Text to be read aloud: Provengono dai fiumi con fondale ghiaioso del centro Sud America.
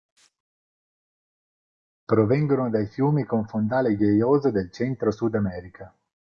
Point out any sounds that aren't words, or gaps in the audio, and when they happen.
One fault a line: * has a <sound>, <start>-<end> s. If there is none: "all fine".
all fine